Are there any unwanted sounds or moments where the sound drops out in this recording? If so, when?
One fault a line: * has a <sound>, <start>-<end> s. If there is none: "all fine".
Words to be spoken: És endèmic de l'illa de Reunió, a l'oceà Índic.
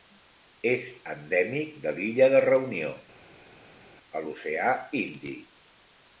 all fine